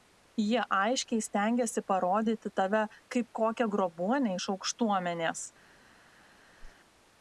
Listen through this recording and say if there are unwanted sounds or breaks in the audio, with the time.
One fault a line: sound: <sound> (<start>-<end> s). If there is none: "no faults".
sound: whoosh (6.6-6.8 s)